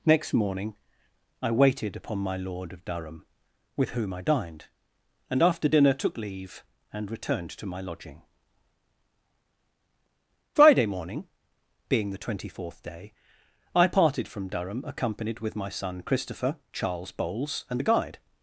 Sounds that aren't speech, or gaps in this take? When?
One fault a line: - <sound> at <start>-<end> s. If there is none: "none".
none